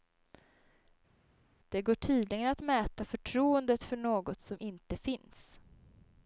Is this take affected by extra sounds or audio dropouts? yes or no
no